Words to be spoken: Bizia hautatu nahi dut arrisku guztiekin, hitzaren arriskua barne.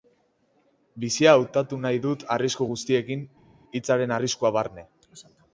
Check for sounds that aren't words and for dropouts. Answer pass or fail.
pass